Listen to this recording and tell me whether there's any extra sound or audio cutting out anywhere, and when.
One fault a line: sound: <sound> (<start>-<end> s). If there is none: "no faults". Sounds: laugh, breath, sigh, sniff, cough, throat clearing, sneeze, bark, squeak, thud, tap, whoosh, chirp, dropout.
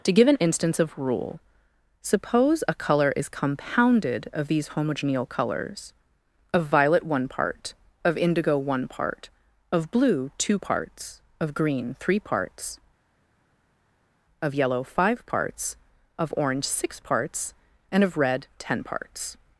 no faults